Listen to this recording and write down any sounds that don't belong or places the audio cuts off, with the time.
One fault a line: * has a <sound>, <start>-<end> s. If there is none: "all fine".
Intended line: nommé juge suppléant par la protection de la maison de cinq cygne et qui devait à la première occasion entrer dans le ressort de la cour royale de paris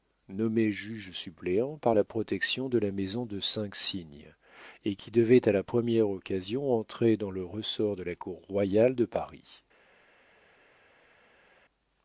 all fine